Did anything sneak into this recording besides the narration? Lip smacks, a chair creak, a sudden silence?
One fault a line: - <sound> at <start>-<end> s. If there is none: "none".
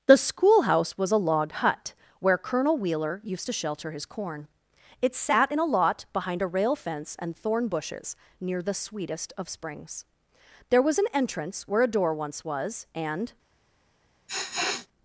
- sniff at 14.3-14.9 s